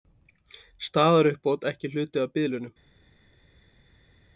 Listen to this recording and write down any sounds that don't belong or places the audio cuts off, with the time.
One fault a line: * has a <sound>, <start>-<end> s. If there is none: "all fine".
all fine